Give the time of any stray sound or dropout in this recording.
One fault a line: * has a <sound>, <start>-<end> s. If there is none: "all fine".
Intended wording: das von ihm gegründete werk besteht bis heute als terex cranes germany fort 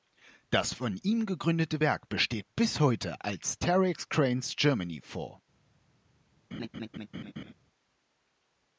* has a laugh, 6.5-7.5 s